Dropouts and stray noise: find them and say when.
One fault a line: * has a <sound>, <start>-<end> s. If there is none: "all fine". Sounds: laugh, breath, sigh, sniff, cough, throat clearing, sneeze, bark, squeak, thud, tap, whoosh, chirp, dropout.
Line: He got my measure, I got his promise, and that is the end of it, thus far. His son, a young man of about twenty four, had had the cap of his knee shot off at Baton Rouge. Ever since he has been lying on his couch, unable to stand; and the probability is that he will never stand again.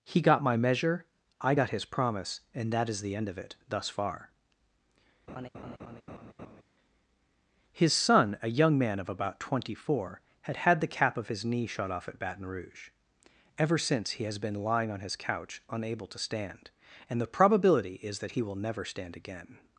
* has a laugh, 5.3-6.6 s